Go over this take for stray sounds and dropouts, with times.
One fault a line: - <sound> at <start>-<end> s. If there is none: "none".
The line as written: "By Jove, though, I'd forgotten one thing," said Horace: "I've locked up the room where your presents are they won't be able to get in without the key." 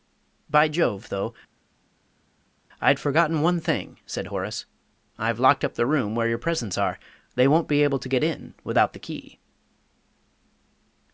none